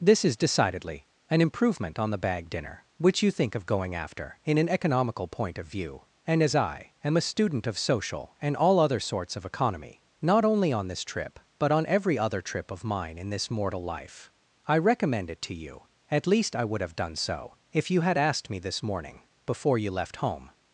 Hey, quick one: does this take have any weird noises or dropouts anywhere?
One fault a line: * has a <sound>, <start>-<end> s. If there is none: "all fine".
all fine